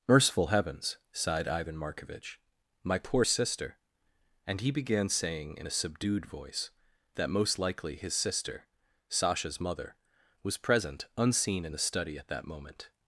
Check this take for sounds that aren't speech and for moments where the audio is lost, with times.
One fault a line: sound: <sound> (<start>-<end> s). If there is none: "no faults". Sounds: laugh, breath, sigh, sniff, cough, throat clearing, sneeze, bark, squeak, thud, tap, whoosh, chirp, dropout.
no faults